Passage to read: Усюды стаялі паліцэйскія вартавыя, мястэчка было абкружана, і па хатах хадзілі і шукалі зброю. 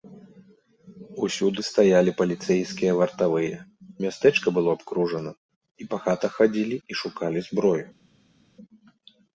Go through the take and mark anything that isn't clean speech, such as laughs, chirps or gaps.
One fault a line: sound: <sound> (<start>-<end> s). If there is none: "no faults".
no faults